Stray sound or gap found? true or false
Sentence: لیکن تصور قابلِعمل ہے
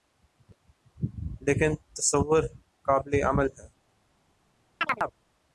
true